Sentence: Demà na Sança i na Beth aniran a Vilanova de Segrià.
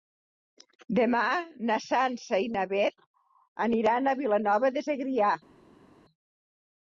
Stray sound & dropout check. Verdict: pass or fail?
pass